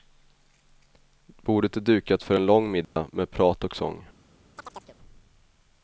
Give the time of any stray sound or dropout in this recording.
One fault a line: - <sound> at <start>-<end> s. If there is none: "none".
- dropout at 2.8-3.0 s
- chirp at 4.6-5.0 s